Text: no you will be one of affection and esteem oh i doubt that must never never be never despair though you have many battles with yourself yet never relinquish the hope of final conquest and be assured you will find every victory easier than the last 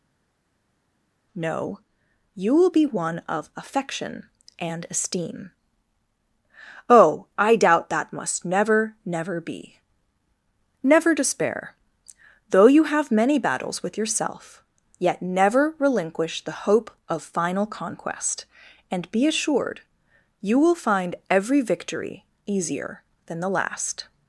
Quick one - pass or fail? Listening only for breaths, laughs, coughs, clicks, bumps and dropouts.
pass